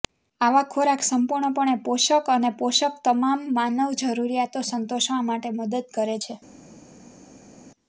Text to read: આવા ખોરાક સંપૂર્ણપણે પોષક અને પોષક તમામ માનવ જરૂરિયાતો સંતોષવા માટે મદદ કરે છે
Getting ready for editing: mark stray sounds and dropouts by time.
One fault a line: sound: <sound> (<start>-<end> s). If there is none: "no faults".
no faults